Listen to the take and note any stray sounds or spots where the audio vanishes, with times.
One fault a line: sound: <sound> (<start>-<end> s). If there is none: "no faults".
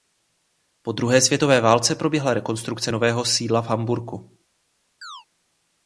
sound: chirp (5.0-5.3 s)